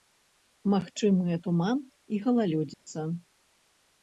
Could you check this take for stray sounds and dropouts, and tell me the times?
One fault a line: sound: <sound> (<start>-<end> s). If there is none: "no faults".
sound: dropout (2.7-2.9 s)